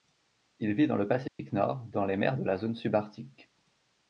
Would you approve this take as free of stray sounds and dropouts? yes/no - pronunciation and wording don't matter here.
no